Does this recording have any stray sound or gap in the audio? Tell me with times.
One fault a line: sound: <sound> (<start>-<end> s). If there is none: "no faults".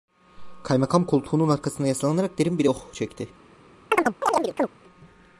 sound: chirp (3.9-4.7 s)